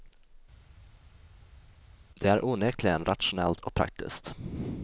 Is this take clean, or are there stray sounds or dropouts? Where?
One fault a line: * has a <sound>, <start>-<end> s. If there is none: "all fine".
all fine